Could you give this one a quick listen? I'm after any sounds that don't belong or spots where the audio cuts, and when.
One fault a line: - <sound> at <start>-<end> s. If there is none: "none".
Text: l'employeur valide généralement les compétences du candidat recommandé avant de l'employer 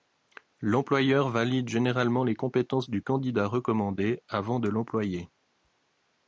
none